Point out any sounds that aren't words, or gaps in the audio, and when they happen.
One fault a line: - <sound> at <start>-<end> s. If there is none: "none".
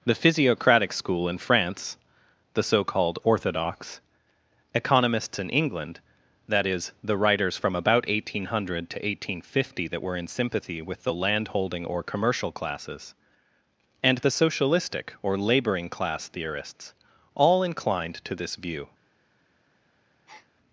- breath at 20.3-20.5 s